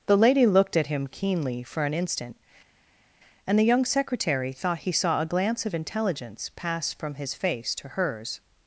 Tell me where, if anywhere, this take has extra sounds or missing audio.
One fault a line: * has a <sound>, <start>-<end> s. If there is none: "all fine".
all fine